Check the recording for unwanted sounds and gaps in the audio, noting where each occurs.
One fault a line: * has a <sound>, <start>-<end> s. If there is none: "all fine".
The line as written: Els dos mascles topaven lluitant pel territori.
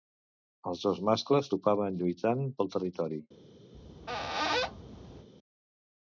* has a squeak, 3.7-5.3 s